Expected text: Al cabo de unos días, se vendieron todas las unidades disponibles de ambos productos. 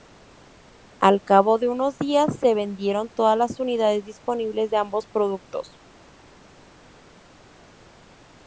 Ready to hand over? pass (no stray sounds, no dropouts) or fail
pass